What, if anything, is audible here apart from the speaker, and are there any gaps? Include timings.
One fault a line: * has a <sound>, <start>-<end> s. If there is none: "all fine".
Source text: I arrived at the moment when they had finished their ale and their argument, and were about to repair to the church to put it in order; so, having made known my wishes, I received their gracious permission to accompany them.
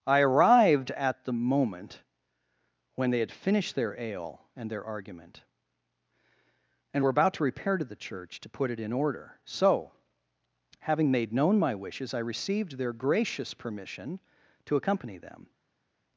all fine